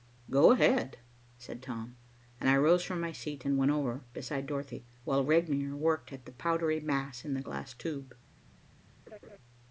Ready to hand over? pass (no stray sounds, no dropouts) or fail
fail